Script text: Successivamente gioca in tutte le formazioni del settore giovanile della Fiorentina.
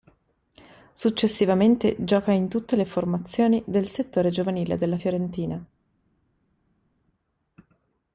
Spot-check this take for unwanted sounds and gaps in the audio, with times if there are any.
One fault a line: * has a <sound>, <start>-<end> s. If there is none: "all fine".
all fine